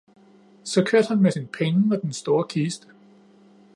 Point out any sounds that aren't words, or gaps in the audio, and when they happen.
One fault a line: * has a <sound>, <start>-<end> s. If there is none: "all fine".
all fine